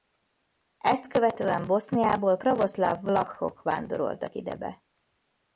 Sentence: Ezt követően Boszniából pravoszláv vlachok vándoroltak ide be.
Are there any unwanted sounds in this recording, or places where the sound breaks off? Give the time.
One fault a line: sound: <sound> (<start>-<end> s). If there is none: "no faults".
no faults